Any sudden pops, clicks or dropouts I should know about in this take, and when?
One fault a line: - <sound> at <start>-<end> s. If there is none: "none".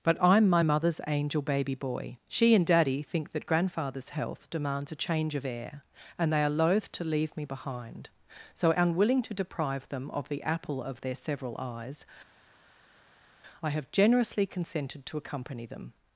none